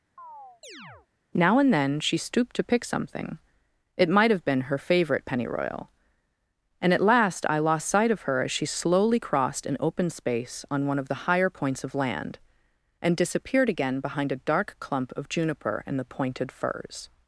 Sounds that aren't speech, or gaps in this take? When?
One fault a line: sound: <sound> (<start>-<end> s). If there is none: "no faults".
sound: chirp (0.2-1.1 s)